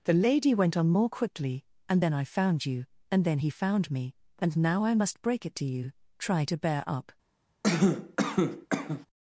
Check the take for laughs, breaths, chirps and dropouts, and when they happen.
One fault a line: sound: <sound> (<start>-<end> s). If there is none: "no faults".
sound: cough (7.6-9.1 s)